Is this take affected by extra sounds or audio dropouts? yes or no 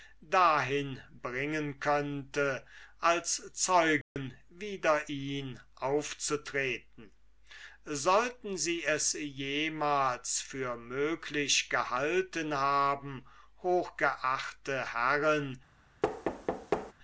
yes